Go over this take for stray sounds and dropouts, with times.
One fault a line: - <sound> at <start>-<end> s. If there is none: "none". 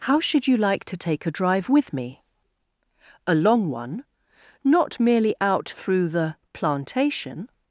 none